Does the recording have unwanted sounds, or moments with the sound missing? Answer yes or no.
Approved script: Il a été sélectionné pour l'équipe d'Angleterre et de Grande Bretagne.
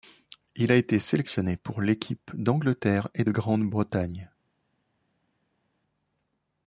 no